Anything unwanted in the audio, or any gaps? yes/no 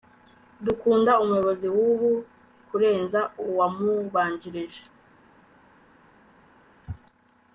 no